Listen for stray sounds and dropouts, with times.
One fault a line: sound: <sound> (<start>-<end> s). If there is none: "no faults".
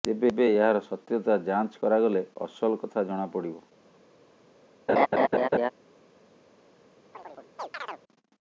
sound: laugh (4.9-5.7 s)
sound: chirp (7.1-8.0 s)